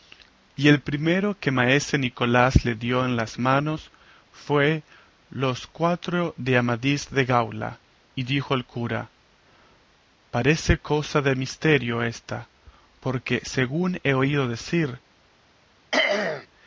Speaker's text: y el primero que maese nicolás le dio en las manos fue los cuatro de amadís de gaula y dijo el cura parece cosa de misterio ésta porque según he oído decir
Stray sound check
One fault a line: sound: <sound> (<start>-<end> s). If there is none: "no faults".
sound: throat clearing (15.9-16.5 s)